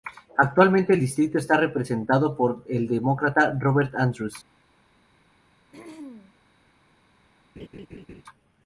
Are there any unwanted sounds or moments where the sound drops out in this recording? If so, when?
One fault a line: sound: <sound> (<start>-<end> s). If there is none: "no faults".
sound: throat clearing (5.7-6.3 s)
sound: laugh (7.6-8.2 s)